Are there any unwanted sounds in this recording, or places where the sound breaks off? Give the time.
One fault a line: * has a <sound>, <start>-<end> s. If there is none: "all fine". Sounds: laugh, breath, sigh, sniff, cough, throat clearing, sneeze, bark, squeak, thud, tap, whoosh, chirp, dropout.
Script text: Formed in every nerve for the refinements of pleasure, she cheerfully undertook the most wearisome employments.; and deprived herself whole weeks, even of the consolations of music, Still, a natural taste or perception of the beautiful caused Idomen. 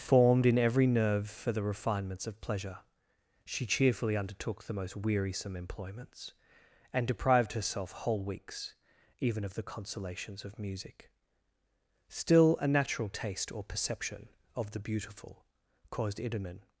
all fine